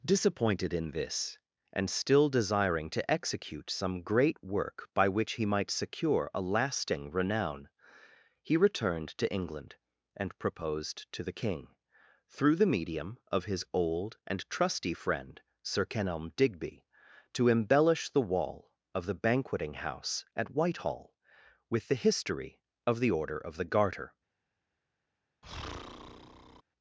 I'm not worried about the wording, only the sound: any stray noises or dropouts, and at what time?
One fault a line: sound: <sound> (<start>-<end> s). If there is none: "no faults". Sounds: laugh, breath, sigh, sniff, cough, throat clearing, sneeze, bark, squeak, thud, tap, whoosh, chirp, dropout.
sound: breath (25.4-26.6 s)